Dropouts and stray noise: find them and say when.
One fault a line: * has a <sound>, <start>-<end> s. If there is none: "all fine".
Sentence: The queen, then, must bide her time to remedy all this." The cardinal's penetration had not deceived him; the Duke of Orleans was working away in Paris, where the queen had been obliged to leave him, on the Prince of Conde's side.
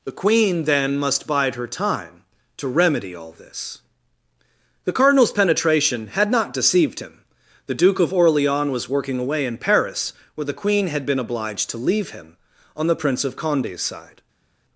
all fine